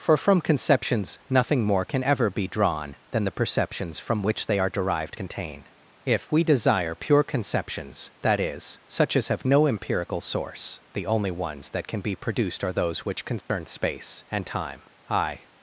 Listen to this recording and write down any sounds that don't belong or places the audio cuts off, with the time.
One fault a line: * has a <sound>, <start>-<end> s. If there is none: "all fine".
* has a dropout, 13.4-13.5 s